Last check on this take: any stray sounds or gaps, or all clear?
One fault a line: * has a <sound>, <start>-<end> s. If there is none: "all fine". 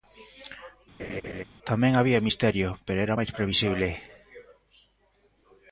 * has a laugh, 1.0-1.4 s